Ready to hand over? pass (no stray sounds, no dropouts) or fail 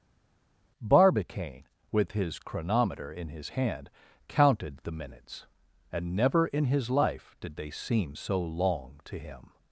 pass